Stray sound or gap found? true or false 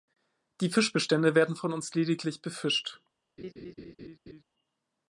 true